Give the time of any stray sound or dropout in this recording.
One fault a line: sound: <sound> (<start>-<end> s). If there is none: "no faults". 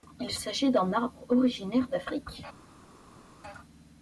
no faults